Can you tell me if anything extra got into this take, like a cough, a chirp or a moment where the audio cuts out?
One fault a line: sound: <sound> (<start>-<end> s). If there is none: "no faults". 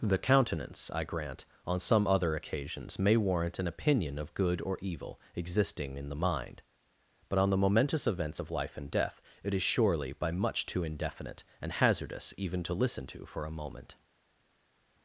no faults